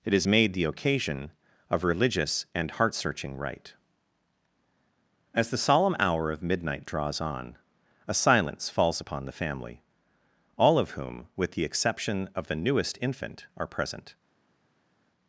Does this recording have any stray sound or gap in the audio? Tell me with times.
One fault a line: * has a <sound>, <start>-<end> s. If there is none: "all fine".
all fine